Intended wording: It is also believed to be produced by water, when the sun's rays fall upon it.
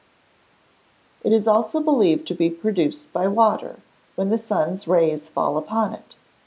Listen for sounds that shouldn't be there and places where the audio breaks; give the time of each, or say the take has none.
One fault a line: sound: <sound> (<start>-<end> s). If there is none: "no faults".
no faults